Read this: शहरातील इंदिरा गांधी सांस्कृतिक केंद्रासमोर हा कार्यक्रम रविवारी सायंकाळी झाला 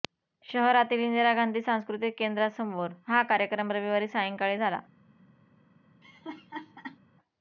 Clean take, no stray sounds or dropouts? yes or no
no